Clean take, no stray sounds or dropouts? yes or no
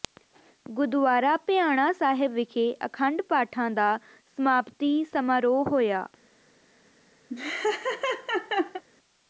no